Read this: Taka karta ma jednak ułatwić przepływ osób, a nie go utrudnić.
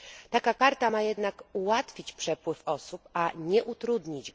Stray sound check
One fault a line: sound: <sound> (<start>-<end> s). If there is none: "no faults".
no faults